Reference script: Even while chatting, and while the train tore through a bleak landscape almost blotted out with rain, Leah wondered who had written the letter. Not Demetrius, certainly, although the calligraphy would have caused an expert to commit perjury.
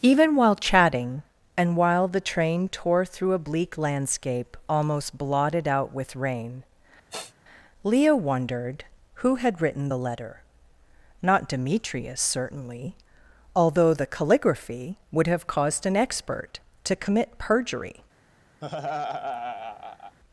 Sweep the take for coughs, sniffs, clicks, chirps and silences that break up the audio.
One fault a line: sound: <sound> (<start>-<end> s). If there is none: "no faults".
sound: sniff (7.1-7.3 s)
sound: laugh (18.6-20.2 s)